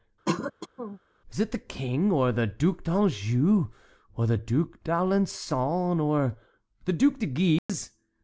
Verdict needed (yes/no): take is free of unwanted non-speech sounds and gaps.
no